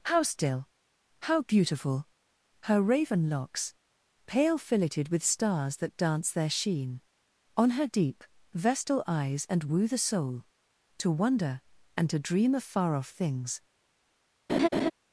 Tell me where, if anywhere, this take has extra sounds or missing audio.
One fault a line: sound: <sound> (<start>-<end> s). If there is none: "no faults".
sound: laugh (14.5-14.9 s)